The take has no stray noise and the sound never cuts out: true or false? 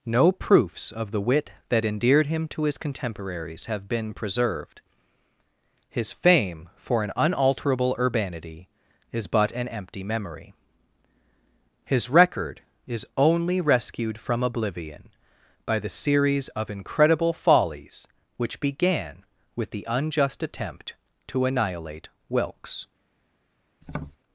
false